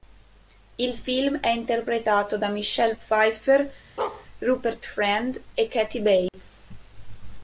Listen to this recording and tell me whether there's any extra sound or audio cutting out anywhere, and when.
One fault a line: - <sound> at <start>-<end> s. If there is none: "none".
- bark at 4.0-4.3 s
- dropout at 6.3-6.3 s